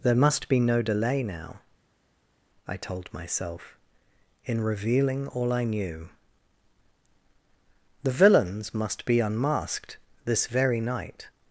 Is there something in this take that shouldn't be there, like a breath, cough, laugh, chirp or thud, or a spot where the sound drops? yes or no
no